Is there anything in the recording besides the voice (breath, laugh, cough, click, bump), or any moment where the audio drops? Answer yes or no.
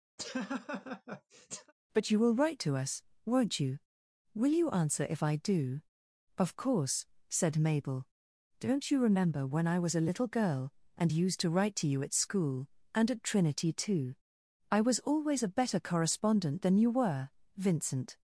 yes